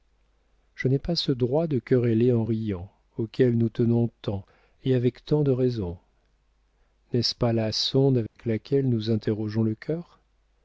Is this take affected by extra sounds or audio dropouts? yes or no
yes